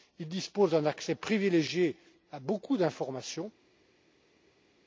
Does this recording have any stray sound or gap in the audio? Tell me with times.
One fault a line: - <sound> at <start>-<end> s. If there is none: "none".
none